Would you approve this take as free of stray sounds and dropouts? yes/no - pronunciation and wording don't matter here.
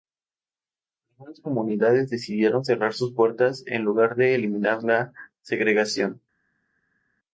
yes